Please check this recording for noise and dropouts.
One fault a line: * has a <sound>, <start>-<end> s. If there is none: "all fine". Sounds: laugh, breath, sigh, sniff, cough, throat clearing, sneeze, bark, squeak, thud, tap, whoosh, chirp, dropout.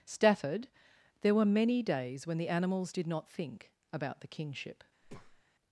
* has a breath, 5.0-5.4 s